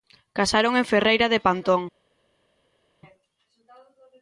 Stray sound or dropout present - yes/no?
no